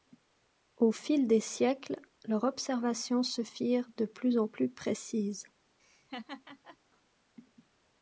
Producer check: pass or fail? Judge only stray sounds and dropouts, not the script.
fail